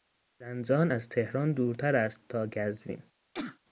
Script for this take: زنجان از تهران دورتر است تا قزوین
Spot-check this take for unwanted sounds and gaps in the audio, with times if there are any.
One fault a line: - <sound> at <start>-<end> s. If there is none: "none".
- sneeze at 3.3-3.6 s